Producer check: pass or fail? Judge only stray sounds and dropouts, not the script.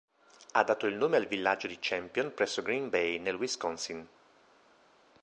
pass